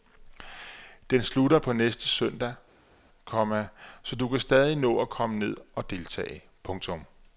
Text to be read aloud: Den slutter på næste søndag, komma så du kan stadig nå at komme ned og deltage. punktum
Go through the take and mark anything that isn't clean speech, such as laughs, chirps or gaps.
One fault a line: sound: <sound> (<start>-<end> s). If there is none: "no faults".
no faults